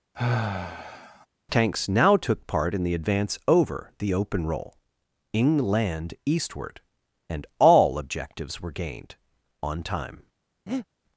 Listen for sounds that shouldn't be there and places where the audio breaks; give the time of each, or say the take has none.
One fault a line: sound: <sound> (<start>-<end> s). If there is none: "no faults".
sound: sigh (0.1-1.3 s)
sound: breath (10.7-10.9 s)